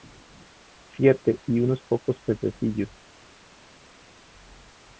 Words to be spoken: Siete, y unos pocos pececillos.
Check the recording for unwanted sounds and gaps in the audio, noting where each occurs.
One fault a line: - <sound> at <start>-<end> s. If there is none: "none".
none